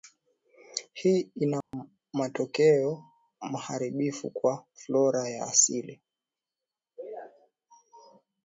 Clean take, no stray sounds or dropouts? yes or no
no